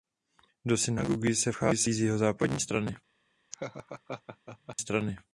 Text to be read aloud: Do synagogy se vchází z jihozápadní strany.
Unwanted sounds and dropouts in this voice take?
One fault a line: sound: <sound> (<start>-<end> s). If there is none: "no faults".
sound: laugh (3.5-4.8 s)